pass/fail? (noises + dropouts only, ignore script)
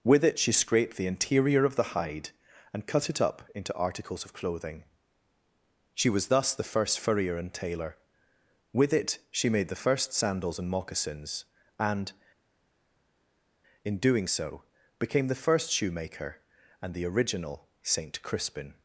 pass